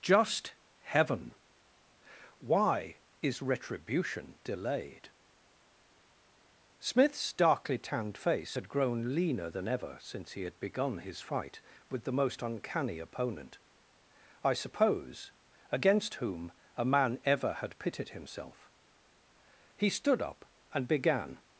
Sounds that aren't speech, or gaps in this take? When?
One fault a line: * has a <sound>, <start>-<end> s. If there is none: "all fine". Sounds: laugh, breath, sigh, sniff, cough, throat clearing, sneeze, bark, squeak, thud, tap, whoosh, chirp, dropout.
all fine